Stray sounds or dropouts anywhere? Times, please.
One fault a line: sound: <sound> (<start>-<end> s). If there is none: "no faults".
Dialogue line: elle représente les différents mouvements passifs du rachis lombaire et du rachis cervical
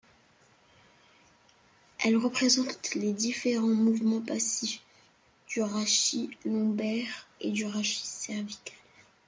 no faults